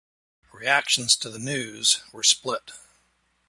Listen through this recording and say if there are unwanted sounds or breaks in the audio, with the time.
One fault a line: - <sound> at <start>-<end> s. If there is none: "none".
none